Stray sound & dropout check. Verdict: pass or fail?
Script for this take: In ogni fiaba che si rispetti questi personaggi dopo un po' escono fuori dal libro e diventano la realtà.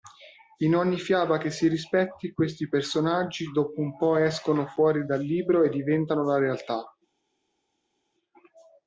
pass